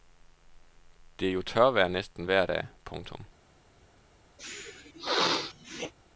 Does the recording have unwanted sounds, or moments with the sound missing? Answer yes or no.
yes